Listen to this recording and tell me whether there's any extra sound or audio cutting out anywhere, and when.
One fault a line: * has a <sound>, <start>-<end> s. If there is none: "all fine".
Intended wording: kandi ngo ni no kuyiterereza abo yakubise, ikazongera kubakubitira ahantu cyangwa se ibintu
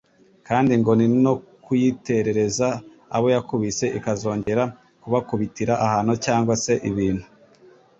* has a dropout, 4.4-4.5 s